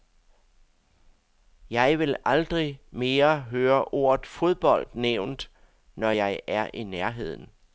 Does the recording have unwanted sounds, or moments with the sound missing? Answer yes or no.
no